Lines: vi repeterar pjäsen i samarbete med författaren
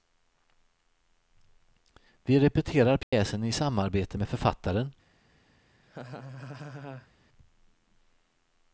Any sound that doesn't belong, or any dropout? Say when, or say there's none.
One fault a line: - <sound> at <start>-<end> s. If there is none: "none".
- dropout at 3.0-3.1 s
- laugh at 5.8-7.1 s